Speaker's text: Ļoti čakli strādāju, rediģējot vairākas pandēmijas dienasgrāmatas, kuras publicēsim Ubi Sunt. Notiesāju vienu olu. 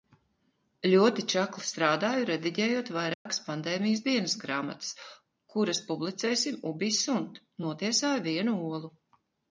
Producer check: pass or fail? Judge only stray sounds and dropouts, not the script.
fail